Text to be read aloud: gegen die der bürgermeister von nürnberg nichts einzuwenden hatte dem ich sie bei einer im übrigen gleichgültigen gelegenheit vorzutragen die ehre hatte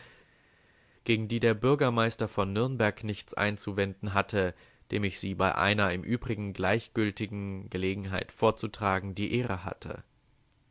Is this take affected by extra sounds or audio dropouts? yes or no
no